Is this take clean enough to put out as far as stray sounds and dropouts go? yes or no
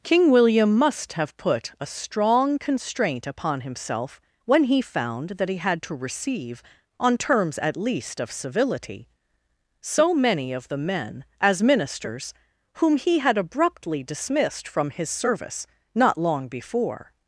yes